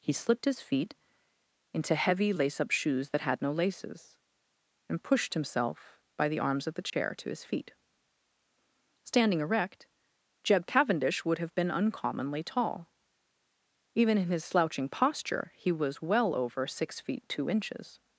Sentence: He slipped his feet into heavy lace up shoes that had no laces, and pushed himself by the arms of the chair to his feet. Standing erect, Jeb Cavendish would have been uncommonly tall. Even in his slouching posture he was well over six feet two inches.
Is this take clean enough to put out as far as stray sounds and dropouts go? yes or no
no